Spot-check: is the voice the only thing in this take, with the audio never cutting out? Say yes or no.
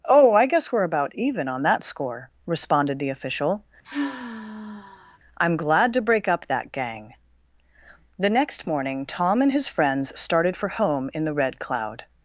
no